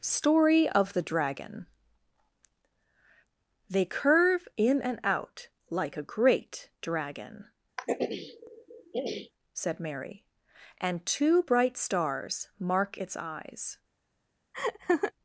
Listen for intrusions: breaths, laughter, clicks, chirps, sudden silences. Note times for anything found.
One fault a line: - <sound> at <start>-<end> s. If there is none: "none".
- throat clearing at 7.8-9.3 s
- laugh at 14.5-15.1 s